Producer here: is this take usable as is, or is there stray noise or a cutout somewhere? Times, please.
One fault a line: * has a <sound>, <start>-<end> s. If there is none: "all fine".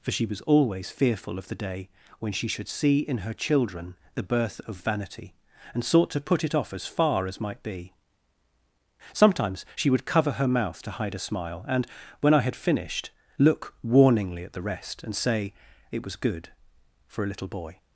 all fine